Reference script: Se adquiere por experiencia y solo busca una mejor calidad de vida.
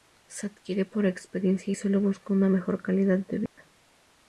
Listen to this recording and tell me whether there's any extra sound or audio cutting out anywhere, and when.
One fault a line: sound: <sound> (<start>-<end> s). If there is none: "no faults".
sound: dropout (3.5-3.6 s)